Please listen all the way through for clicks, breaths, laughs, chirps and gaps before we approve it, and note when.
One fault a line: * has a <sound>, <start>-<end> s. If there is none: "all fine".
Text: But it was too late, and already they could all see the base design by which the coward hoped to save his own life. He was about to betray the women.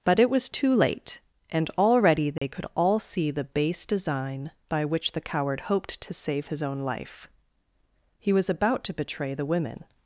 * has a dropout, 2.4-2.4 s